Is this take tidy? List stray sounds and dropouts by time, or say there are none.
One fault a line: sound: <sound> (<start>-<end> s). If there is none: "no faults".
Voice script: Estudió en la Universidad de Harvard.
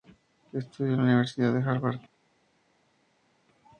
no faults